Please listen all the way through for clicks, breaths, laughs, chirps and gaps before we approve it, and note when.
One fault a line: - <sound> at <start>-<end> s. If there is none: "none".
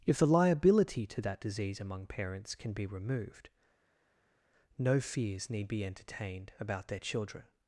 none